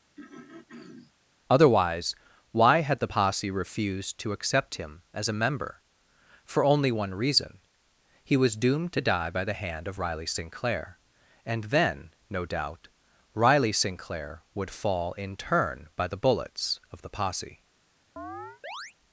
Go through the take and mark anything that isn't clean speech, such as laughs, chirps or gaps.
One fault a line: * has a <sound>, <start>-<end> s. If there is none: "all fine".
* has a throat clearing, 0.2-1.1 s
* has a chirp, 18.2-18.9 s